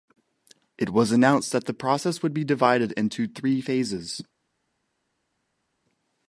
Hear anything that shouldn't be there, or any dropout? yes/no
no